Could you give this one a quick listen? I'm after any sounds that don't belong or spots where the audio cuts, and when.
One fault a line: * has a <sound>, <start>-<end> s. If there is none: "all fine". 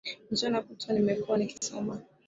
* has a dropout, 1.6-1.6 s